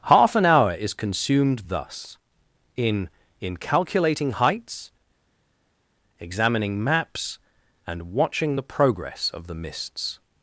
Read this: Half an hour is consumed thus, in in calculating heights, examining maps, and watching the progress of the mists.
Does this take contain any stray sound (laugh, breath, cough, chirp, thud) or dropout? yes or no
no